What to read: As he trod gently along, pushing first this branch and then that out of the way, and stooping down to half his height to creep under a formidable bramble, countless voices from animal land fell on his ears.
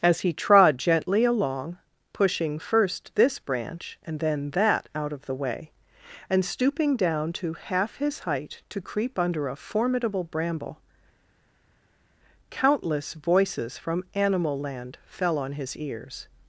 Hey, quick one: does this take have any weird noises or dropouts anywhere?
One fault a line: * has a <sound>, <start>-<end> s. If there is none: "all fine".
all fine